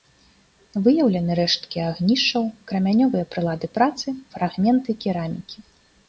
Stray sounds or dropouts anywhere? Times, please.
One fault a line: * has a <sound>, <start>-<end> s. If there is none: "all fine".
all fine